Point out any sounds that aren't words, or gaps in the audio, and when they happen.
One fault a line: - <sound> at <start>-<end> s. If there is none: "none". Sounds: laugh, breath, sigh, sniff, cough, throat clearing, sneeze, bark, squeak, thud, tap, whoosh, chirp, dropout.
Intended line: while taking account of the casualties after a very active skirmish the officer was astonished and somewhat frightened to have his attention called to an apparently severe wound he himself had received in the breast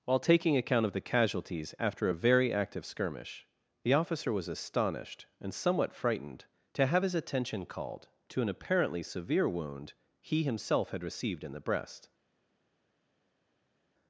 none